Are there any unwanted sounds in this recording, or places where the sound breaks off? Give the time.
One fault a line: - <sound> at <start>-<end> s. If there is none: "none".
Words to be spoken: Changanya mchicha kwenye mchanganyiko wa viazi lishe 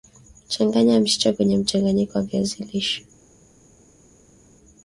none